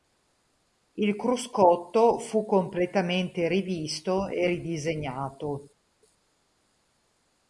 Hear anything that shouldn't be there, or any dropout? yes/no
no